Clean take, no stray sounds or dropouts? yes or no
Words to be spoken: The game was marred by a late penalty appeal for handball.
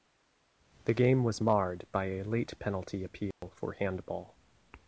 no